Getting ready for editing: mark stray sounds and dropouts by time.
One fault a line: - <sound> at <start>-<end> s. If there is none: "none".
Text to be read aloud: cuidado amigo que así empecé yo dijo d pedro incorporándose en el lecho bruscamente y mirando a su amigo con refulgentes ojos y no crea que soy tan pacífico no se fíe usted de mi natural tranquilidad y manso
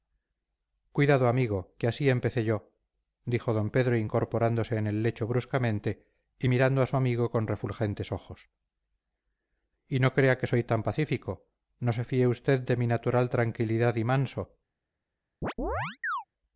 - chirp at 15.4-16.2 s